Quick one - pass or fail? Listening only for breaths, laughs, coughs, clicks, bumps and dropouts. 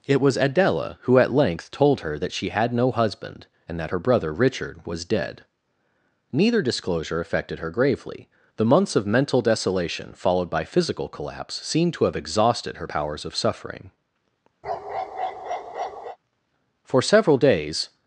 fail